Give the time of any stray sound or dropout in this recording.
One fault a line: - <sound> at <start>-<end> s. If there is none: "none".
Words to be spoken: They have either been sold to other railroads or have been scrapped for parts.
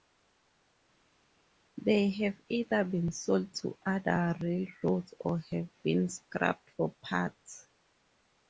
none